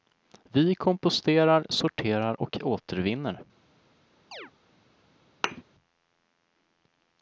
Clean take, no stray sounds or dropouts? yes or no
no